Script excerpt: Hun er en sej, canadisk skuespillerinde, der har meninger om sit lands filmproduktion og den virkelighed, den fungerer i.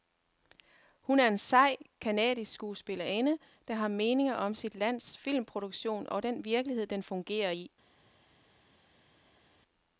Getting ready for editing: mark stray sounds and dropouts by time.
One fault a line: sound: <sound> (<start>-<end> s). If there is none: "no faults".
no faults